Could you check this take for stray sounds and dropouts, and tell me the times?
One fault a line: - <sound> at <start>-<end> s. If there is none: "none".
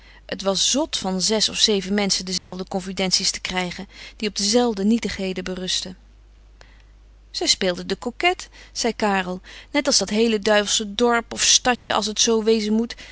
- dropout at 2.4-2.5 s
- dropout at 11.8-11.9 s